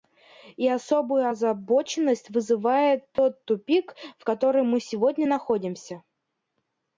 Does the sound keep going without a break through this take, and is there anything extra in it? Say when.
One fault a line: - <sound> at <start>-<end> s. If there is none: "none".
- dropout at 3.2-3.2 s